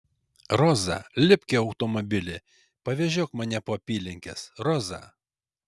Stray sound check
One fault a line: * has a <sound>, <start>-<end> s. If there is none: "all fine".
all fine